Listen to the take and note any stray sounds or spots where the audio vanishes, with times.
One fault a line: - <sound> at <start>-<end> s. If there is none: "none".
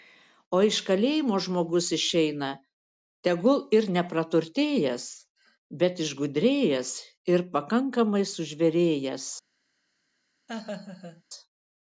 - laugh at 10.5-11.2 s